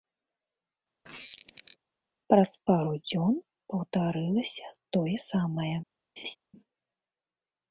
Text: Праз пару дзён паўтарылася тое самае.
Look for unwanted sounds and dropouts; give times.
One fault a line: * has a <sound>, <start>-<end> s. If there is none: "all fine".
* has a squeak, 1.0-1.8 s
* has a laugh, 6.2-6.4 s